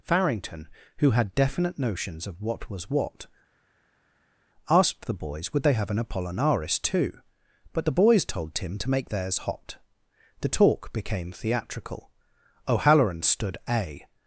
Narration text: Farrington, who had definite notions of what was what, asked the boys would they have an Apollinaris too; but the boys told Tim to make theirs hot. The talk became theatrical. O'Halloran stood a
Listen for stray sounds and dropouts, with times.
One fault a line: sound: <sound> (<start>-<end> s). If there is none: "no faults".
no faults